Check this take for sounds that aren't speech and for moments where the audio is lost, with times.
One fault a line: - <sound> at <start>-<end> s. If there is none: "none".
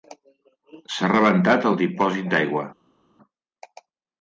none